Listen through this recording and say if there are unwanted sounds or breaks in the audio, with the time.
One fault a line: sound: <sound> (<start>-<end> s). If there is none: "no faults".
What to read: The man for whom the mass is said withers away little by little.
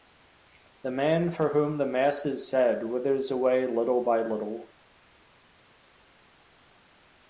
no faults